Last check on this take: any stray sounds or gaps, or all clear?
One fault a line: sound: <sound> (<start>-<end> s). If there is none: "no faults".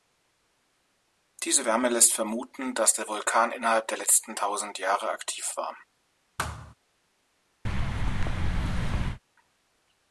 sound: thud (6.4-6.7 s)
sound: thud (7.6-9.2 s)